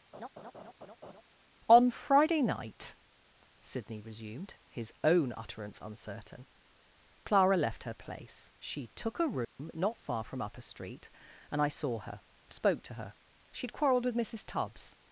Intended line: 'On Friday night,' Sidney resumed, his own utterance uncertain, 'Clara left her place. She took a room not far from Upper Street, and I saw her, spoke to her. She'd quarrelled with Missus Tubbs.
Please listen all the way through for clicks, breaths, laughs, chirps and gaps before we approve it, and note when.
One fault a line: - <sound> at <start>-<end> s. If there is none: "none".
- laugh at 0.1-1.2 s
- dropout at 9.4-9.6 s